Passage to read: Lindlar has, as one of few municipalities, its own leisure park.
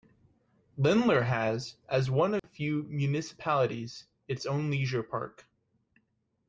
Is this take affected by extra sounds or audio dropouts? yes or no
yes